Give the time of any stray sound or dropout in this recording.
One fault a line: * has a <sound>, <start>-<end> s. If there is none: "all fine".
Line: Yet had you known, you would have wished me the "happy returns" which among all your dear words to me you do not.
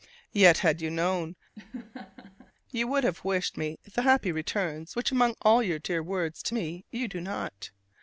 * has a laugh, 1.5-2.5 s